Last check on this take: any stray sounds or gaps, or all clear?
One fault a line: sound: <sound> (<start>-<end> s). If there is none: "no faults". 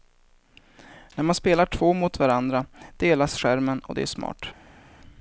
no faults